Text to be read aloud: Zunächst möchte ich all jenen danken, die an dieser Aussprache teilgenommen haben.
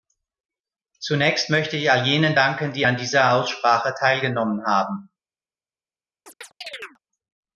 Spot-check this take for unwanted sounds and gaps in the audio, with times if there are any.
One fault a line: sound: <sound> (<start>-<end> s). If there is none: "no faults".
sound: chirp (6.3-7.0 s)